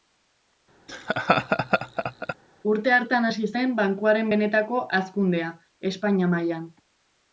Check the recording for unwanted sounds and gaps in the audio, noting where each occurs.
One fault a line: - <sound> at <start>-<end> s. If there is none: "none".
- laugh at 0.9-2.4 s